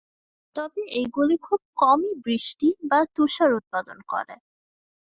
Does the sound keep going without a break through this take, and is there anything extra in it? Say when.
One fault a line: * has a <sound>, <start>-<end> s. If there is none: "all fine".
all fine